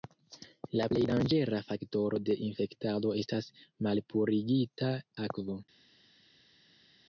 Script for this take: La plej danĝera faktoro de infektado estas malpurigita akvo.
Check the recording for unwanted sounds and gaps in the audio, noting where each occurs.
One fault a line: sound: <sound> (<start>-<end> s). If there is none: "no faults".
no faults